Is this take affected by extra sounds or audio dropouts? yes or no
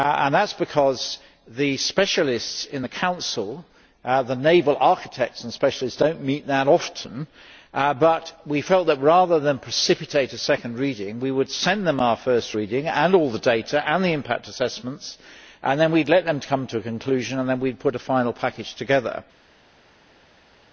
no